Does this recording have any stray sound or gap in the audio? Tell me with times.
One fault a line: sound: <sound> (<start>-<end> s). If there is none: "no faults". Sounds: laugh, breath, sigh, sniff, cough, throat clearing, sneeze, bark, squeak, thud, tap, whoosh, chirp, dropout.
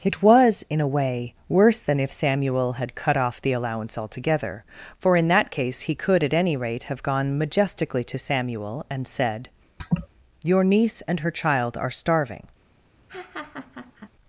sound: laugh (9.8-10.1 s)
sound: laugh (13.1-14.1 s)